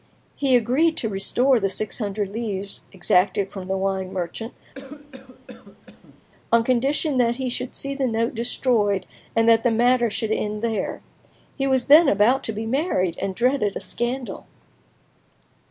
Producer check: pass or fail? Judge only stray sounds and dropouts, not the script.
fail